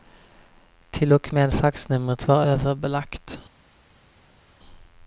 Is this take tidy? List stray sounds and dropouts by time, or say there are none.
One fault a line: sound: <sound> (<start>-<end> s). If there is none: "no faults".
no faults